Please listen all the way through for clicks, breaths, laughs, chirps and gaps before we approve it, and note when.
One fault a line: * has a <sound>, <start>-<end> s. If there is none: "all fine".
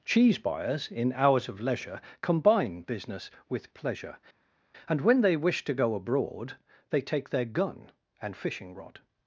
all fine